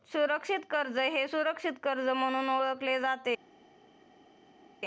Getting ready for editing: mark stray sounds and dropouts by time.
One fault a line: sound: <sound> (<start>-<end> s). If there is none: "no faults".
no faults